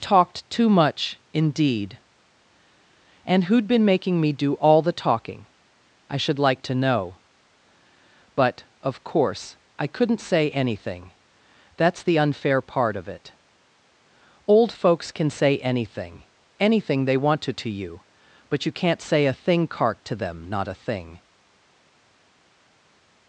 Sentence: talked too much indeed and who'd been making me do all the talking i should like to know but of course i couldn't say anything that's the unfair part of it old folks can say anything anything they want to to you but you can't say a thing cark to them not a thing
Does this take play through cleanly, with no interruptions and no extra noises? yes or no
yes